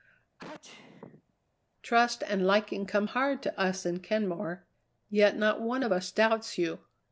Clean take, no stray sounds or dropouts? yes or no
no